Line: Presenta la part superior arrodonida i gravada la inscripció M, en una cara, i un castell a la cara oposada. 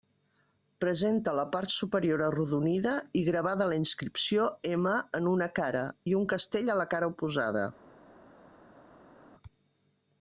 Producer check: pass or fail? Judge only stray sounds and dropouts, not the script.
pass